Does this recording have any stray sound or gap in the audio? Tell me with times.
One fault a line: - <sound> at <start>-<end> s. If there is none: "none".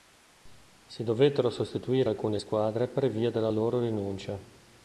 none